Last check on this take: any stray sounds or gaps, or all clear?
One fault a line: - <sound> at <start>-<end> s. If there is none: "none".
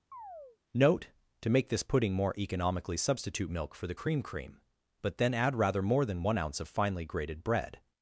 - chirp at 0.1-0.6 s